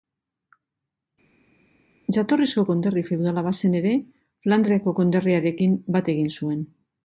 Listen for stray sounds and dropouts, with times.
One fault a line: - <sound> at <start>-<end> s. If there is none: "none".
none